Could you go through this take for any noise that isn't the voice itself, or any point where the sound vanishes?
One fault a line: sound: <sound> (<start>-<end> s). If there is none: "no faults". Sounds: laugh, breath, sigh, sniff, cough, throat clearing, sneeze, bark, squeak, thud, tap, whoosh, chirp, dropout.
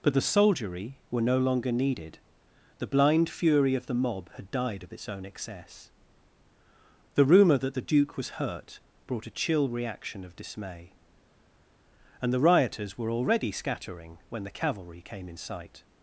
no faults